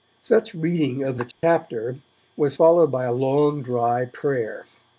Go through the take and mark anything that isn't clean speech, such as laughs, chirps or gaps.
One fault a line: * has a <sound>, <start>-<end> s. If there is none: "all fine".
* has a dropout, 1.3-1.4 s